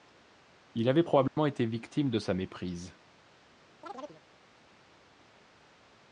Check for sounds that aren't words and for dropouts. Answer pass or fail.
fail